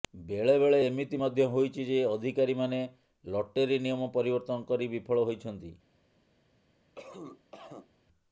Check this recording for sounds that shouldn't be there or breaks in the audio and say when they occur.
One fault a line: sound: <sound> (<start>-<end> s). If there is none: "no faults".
sound: cough (7.0-7.9 s)